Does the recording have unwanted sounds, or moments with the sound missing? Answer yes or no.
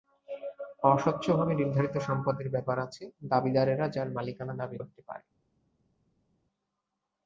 no